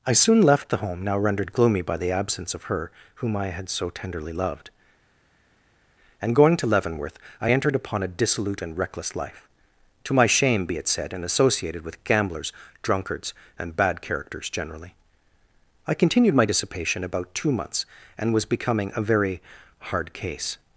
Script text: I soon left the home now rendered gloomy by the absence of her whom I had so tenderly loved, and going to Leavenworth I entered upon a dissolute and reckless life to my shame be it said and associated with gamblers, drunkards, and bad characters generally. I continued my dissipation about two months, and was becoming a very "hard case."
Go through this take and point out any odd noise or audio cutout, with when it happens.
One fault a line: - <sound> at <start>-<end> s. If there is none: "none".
none